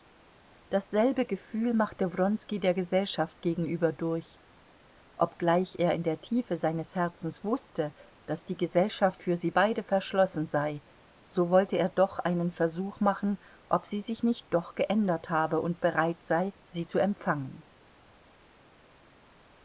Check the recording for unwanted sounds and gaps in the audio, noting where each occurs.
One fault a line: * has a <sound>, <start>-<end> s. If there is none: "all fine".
all fine